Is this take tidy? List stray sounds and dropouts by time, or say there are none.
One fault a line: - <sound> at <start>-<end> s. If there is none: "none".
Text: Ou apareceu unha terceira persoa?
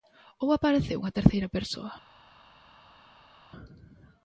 none